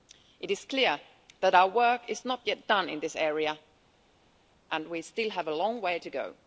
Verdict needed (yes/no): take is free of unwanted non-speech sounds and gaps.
yes